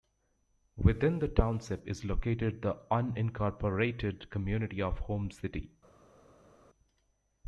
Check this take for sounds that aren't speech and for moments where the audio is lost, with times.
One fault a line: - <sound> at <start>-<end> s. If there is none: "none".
none